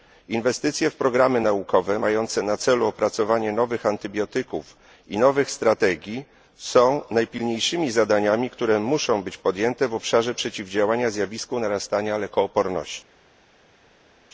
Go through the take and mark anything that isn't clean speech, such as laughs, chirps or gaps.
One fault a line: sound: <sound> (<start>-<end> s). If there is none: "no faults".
no faults